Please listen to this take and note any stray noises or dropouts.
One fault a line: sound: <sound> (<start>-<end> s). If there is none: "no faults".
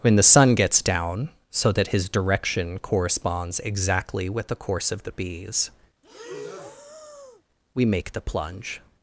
sound: breath (6.0-7.4 s)